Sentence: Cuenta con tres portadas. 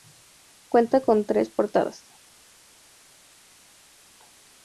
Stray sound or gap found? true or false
false